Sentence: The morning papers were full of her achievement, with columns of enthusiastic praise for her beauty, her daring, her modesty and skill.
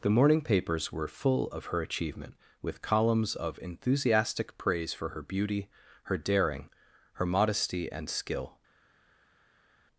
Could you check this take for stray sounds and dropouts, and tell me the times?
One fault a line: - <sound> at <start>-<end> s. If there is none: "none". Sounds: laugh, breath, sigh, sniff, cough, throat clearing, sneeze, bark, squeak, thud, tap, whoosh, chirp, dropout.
none